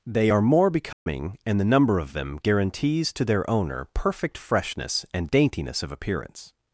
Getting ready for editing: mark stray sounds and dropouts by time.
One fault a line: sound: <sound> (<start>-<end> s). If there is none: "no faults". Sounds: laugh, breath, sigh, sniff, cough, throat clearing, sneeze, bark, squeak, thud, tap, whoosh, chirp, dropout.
sound: dropout (0.9-1.1 s)